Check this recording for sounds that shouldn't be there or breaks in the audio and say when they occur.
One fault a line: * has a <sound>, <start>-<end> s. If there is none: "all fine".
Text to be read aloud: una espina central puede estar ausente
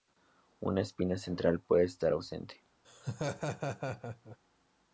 * has a laugh, 2.8-4.4 s